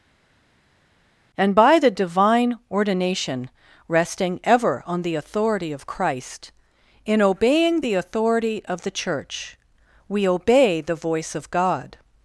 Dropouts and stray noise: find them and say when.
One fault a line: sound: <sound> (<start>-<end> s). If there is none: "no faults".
no faults